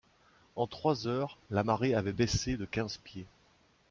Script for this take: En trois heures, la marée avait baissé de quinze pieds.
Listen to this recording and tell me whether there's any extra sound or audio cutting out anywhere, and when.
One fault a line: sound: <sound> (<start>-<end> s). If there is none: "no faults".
no faults